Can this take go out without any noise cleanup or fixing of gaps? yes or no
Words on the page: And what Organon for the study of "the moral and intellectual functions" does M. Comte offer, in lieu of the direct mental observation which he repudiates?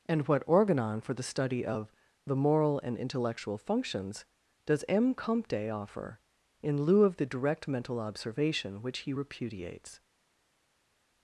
yes